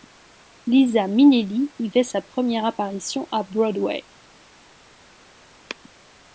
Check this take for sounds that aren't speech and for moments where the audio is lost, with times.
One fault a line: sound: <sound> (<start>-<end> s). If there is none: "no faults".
no faults